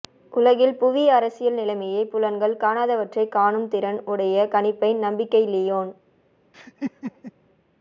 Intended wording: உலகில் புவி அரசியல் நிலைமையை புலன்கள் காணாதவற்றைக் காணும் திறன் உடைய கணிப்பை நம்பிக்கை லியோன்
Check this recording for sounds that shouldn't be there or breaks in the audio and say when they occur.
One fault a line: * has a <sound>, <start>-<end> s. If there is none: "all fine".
* has a laugh, 6.5-7.3 s